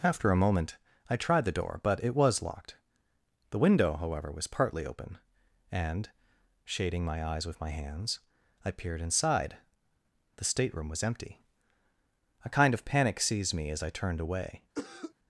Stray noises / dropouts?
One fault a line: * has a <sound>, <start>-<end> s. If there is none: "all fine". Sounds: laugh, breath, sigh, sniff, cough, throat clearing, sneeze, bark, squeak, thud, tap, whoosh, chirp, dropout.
* has a cough, 14.8-15.1 s